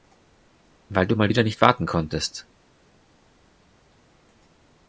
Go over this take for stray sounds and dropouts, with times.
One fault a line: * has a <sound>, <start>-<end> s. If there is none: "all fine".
all fine